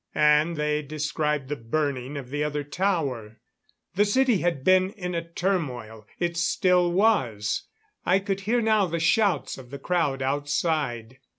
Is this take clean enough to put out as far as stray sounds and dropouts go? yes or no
yes